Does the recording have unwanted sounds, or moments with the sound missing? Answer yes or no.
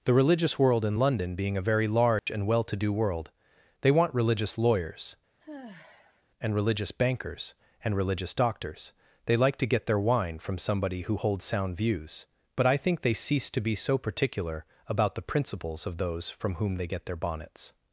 yes